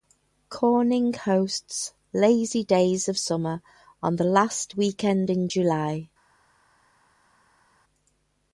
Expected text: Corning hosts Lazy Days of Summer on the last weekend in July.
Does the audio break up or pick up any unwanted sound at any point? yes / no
no